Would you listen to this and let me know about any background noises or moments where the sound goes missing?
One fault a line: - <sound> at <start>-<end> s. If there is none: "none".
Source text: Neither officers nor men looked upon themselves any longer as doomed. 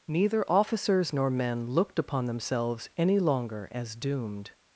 none